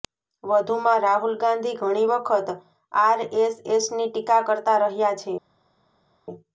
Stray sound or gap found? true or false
false